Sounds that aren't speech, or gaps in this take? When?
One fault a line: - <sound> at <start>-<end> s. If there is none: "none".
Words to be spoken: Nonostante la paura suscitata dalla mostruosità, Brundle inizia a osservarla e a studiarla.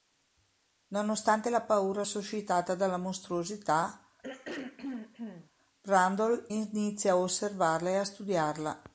- throat clearing at 4.2-5.5 s